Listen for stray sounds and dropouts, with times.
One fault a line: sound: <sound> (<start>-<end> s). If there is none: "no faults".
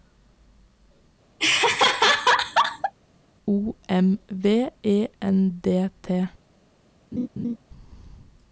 sound: laugh (1.4-2.9 s)
sound: laugh (7.1-7.6 s)